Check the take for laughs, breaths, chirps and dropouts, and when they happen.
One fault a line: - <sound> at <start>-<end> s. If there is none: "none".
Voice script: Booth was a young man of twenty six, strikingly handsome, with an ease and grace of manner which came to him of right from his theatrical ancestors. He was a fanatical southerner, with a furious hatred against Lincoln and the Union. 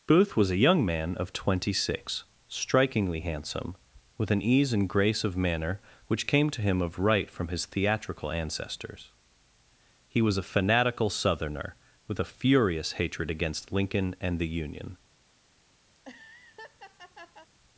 - laugh at 15.9-17.5 s